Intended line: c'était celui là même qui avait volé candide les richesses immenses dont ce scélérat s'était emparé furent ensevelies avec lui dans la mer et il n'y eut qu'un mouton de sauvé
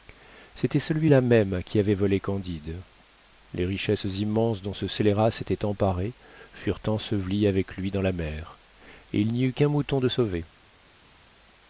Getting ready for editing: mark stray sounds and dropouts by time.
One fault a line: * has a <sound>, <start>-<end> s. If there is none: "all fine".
all fine